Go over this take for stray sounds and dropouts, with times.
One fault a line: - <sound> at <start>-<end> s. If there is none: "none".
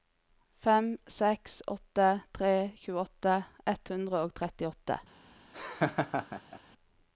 - laugh at 5.5-6.6 s